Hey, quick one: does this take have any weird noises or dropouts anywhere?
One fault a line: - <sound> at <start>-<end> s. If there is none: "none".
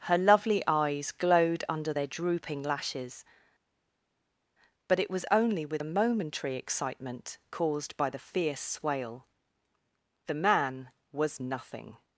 none